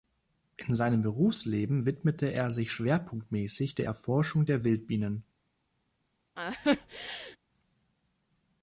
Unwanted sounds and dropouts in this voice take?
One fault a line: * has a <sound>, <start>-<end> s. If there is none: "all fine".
* has a laugh, 6.4-7.4 s